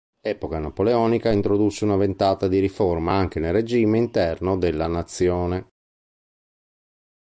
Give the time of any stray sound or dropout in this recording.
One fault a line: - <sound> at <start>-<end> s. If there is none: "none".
none